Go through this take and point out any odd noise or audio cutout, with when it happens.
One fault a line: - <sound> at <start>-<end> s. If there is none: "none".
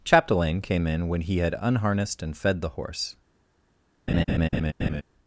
- laugh at 4.1-5.0 s